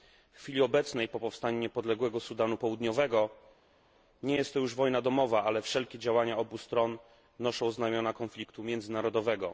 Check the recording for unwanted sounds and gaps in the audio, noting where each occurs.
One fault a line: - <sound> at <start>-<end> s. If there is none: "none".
none